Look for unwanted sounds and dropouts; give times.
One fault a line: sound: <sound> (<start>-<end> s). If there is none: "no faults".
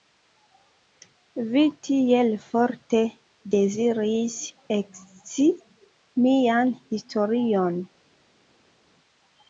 no faults